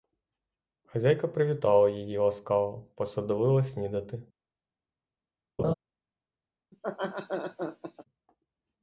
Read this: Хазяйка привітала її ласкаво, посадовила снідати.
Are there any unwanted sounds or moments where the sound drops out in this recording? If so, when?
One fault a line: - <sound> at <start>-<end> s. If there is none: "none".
- laugh at 5.6-5.7 s
- laugh at 6.7-8.0 s